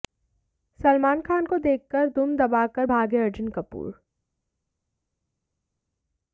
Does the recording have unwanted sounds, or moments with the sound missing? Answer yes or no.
no